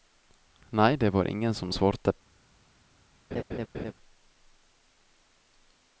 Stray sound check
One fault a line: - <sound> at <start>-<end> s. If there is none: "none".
- laugh at 3.3-3.9 s